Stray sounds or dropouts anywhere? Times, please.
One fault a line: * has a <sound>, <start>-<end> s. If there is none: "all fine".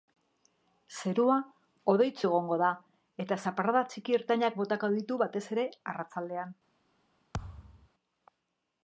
* has a thud, 7.3-7.9 s